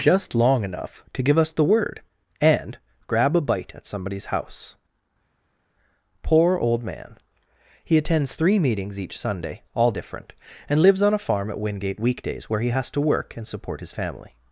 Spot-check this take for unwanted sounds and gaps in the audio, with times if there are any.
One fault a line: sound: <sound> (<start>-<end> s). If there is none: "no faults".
no faults